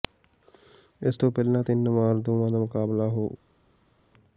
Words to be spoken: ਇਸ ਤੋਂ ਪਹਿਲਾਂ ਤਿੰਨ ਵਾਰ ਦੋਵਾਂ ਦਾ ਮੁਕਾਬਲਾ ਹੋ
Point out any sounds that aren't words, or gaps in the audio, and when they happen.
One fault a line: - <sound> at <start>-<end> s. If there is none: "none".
none